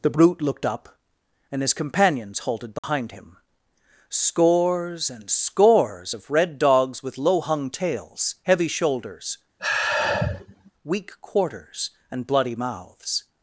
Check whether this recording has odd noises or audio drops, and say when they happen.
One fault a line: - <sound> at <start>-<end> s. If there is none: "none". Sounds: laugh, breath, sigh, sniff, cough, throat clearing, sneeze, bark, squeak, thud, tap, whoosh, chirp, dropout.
- dropout at 2.8-2.8 s
- sigh at 9.6-10.7 s